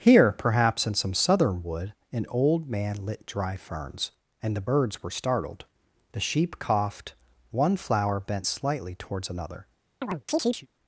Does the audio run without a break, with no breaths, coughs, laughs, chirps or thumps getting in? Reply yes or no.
no